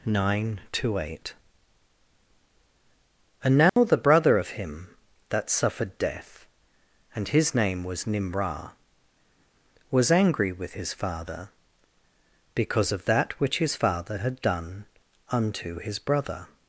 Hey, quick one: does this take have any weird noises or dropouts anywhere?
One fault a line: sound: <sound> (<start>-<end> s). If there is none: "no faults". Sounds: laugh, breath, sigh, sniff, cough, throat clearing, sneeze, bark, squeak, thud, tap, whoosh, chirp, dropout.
sound: dropout (3.7-3.8 s)